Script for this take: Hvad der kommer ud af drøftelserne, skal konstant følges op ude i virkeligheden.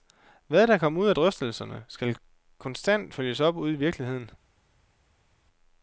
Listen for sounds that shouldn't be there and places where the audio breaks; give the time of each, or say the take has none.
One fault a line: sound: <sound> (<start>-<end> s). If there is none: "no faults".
no faults